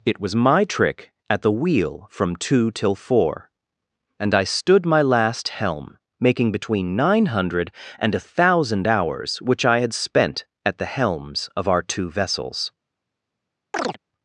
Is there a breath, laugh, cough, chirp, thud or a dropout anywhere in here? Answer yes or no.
yes